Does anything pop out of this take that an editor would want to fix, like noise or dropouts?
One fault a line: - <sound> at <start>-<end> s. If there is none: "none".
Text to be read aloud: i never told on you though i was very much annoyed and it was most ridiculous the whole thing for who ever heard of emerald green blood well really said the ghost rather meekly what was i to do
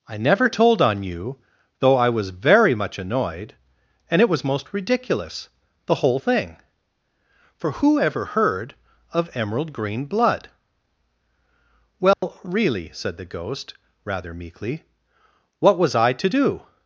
- dropout at 12.1-12.2 s